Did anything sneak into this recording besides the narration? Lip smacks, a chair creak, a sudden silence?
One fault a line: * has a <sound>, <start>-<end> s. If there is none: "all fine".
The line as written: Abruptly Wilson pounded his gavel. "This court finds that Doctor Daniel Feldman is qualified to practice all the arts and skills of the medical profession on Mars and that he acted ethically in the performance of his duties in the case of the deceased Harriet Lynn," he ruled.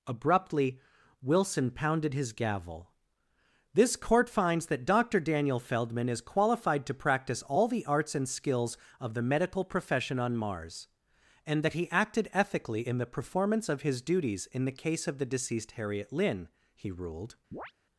* has a chirp, 17.5-17.7 s